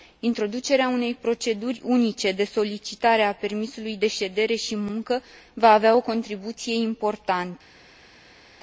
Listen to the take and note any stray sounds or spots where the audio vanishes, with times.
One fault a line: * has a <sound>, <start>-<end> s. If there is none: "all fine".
all fine